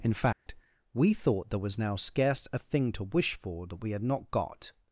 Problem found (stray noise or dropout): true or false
true